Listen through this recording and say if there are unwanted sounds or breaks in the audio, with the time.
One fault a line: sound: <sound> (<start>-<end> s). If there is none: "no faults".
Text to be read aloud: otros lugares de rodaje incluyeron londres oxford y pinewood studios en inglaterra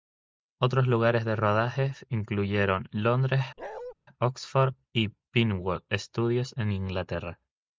sound: bark (3.6-3.9 s)